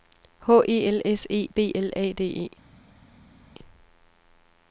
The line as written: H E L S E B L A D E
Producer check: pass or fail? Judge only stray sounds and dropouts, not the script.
pass